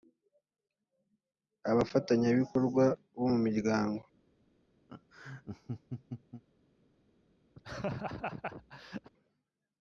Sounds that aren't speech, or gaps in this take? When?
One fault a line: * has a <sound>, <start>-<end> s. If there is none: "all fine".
* has a laugh, 4.9-6.4 s
* has a laugh, 7.5-9.1 s